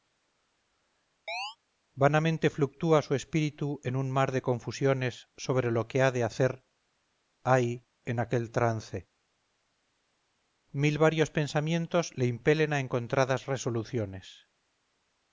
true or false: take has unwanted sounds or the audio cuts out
true